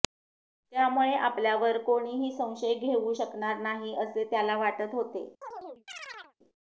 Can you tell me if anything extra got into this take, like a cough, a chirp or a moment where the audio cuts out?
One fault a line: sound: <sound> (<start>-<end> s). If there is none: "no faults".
sound: chirp (5.4-6.3 s)